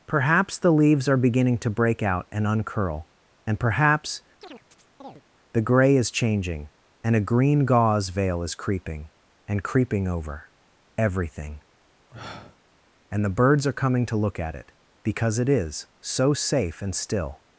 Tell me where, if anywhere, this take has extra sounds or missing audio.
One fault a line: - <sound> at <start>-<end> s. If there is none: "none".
- chirp at 4.4-5.2 s
- sniff at 12.1-12.6 s